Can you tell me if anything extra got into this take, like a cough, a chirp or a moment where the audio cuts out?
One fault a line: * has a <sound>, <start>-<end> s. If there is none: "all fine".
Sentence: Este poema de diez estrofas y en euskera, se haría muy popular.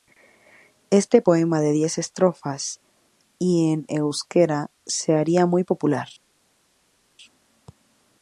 all fine